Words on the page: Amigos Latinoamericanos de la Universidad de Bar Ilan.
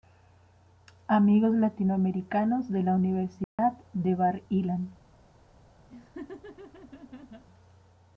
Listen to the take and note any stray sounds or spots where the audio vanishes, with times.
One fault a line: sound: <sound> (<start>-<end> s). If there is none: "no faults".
sound: dropout (3.4-3.6 s)
sound: laugh (5.9-7.4 s)